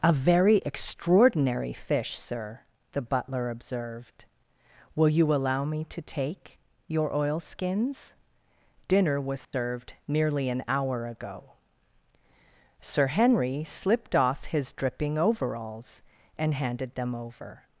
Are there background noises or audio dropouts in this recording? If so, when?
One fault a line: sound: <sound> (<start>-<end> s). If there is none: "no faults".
sound: dropout (9.4-9.5 s)